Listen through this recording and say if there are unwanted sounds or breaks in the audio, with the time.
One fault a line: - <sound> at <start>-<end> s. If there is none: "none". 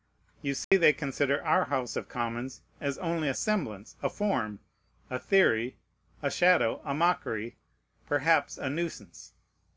- dropout at 0.6-0.7 s